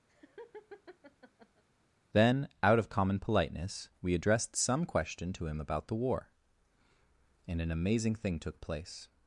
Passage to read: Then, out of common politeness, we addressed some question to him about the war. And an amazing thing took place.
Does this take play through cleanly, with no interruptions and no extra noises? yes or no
no